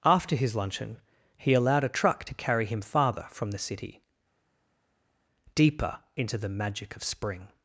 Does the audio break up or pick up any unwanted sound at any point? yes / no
no